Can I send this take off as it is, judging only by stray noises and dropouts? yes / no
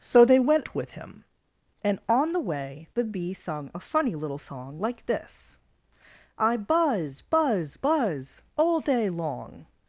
yes